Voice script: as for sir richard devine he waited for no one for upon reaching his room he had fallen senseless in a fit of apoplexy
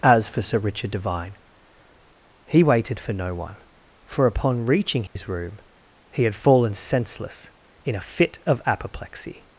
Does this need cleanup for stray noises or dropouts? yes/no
yes